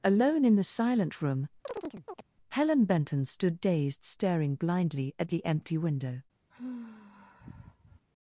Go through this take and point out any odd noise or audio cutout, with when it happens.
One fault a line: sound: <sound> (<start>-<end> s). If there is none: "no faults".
sound: chirp (1.7-2.2 s)
sound: sigh (6.5-8.1 s)